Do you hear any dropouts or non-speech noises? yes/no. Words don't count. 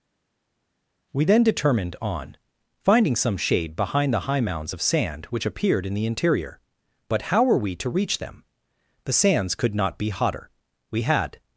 no